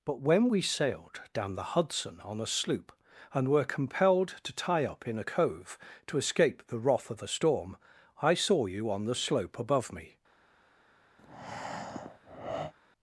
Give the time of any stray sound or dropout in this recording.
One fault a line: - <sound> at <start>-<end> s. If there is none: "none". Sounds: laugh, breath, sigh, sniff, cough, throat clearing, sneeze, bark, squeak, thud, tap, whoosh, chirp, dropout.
- breath at 11.2-12.7 s